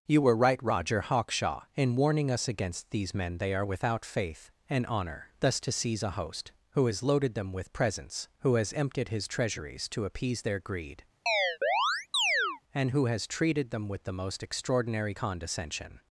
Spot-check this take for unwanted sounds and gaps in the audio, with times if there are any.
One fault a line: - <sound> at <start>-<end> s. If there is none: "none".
- chirp at 11.3-12.6 s